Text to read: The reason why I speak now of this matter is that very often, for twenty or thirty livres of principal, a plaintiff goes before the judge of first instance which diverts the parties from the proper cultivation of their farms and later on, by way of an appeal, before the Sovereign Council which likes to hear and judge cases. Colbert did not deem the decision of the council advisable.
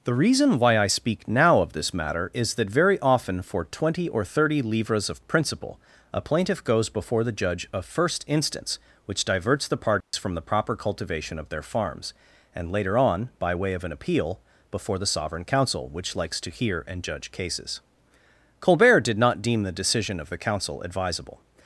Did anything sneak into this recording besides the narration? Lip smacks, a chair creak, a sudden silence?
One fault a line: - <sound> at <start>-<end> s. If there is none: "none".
- dropout at 10.0-10.1 s